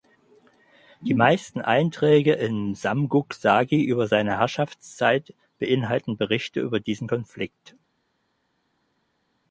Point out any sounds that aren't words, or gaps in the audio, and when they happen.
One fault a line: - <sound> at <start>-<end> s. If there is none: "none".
none